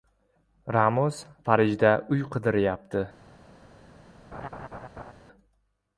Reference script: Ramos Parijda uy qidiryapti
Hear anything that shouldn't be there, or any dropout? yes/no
yes